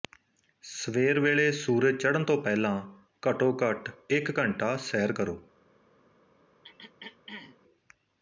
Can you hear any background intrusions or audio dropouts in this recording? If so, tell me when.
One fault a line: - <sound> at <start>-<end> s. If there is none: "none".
- throat clearing at 6.6-7.6 s